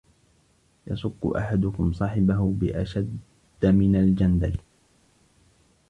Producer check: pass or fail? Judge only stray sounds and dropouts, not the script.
pass